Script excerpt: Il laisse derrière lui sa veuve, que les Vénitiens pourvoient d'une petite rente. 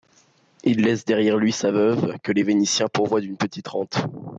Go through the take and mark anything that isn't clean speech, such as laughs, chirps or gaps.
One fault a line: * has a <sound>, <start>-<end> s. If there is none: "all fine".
all fine